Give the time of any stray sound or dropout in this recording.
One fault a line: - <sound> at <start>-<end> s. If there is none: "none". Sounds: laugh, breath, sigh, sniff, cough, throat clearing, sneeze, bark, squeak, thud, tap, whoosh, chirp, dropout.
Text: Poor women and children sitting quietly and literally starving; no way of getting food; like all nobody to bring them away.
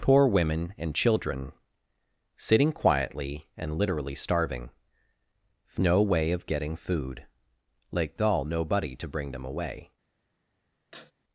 - sneeze at 10.9-11.1 s